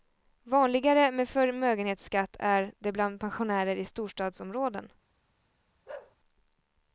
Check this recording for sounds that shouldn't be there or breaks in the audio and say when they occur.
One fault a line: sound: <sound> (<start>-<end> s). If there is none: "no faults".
sound: bark (5.9-6.2 s)